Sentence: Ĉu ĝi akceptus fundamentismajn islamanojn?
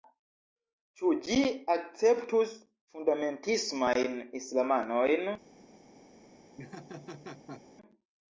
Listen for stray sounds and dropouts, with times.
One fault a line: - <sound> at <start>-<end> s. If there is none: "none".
- laugh at 6.6-7.6 s